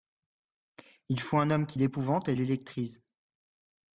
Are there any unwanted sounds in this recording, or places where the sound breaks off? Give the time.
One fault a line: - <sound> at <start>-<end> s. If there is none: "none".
none